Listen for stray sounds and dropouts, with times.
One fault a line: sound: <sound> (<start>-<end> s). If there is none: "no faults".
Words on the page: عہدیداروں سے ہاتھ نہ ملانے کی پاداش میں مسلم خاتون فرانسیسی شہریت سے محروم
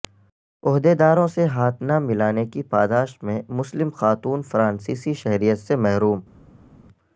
no faults